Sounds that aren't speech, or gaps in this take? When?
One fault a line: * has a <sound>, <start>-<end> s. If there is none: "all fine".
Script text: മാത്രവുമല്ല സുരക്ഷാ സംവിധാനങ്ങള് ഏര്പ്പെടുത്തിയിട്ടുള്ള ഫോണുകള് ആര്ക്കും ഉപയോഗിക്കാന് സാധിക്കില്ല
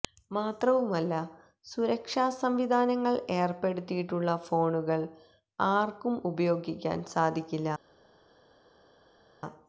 all fine